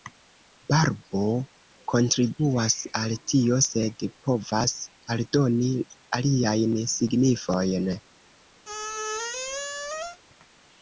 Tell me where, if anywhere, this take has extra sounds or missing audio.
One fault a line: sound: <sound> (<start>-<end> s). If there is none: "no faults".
sound: squeak (8.6-10.2 s)